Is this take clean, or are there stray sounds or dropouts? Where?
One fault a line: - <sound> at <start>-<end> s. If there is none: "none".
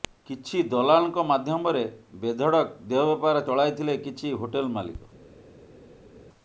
none